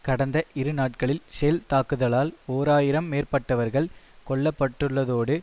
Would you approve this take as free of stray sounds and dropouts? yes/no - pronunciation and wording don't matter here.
yes